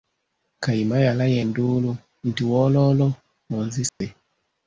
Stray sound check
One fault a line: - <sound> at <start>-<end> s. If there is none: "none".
- dropout at 3.9-4.0 s